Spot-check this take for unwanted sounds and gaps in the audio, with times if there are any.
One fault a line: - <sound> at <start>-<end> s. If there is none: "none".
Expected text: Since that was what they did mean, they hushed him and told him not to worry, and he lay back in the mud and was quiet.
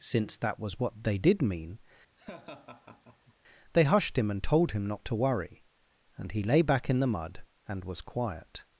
- laugh at 2.2-3.3 s